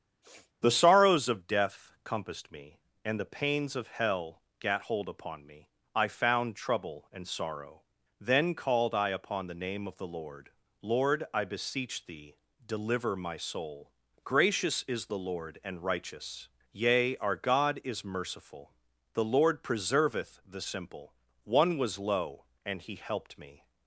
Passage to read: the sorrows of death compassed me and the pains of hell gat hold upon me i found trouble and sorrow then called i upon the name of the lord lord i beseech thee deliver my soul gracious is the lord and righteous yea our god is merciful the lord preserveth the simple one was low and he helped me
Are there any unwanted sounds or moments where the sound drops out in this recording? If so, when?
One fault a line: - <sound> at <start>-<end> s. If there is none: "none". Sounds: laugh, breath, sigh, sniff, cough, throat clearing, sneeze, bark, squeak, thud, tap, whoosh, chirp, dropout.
- sniff at 0.2-0.5 s